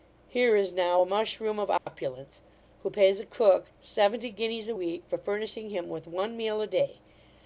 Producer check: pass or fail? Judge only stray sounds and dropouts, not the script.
fail